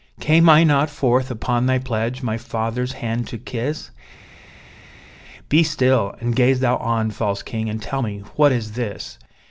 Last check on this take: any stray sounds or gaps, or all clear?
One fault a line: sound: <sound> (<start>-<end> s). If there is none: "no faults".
no faults